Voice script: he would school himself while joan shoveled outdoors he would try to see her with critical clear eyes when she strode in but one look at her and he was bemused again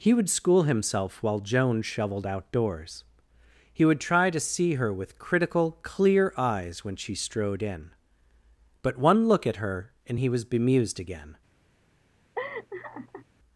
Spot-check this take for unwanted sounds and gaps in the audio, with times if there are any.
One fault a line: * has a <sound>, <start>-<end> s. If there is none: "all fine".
* has a laugh, 12.4-13.3 s